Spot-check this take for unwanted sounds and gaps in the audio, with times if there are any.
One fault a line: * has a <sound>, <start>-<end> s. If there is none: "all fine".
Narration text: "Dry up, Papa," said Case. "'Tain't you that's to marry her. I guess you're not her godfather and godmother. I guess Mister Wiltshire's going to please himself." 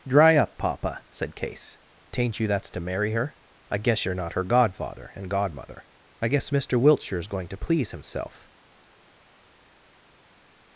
all fine